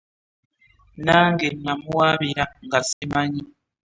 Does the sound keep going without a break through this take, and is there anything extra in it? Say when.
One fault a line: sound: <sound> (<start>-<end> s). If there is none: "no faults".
sound: dropout (2.9-3.0 s)